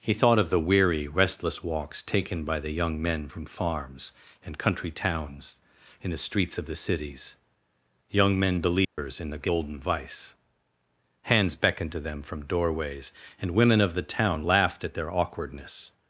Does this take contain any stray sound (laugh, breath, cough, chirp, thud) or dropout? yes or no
yes